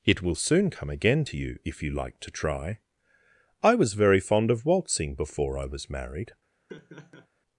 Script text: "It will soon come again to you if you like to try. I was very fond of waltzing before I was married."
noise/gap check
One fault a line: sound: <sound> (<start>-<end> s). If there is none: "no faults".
sound: laugh (6.7-7.3 s)